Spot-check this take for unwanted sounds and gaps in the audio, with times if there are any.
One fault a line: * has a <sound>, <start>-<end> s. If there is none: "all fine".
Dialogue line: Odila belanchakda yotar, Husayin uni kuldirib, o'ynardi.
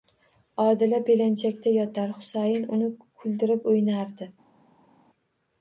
all fine